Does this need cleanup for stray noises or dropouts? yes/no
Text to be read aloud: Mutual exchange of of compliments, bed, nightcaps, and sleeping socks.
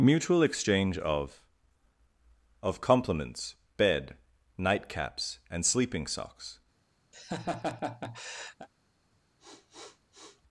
yes